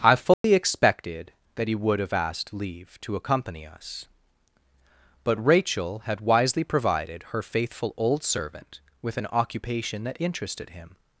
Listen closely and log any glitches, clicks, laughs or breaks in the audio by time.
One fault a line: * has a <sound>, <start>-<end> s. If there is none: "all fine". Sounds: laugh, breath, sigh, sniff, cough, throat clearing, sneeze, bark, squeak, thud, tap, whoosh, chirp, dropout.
* has a dropout, 0.3-0.4 s